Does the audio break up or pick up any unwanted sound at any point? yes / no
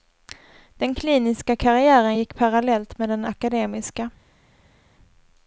no